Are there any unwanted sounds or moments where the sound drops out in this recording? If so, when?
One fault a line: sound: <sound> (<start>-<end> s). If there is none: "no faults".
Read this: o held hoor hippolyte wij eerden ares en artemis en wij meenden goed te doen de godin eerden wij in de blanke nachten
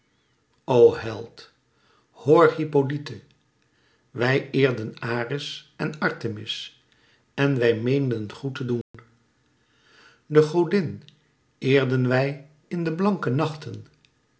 sound: dropout (8.8-8.9 s)